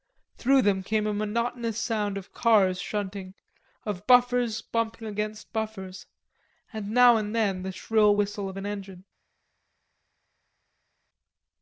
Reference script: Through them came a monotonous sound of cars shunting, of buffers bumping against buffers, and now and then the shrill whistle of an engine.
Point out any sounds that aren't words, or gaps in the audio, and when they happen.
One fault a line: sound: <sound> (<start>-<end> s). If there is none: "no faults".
no faults